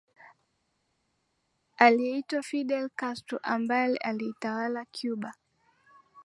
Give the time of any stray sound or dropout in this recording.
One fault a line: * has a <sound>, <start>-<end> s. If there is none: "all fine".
all fine